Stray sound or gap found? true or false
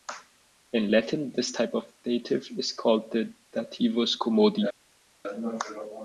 false